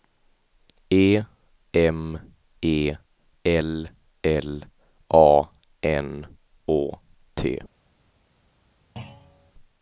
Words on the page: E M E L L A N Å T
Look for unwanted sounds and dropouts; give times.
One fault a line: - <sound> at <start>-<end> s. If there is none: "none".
- thud at 9.0-9.5 s